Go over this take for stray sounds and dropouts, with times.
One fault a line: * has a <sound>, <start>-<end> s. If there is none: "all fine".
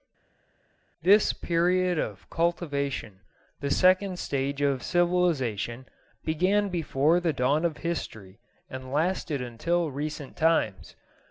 all fine